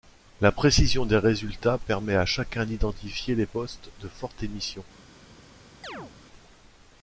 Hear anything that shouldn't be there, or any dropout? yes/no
yes